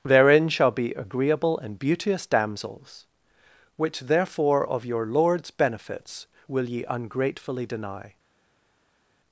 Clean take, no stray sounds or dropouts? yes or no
yes